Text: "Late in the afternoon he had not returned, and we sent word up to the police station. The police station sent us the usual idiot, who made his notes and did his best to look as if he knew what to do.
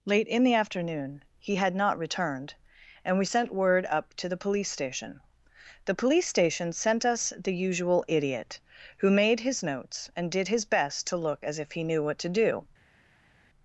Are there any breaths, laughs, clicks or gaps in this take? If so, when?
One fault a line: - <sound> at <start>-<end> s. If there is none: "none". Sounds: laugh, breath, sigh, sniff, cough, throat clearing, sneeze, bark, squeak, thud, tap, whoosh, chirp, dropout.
none